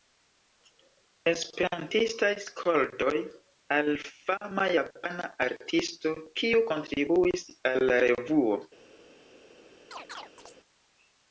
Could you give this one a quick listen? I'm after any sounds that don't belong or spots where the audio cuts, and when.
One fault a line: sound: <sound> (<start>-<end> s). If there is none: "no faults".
sound: chirp (9.9-10.6 s)